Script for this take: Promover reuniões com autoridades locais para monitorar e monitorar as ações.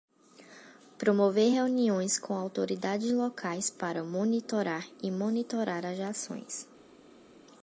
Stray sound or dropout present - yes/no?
no